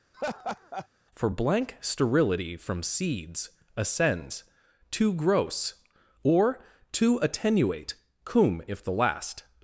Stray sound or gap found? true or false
true